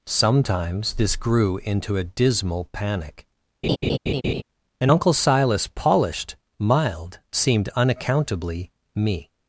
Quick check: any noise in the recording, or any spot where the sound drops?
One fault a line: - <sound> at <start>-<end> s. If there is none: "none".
- laugh at 3.6-4.4 s